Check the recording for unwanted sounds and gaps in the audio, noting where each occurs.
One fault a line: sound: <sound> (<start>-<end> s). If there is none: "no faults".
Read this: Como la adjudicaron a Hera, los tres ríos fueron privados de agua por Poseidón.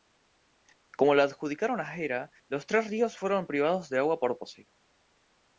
no faults